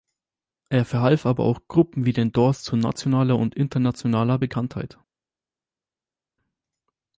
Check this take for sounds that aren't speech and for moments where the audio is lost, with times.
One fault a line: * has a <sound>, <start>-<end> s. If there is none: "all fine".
all fine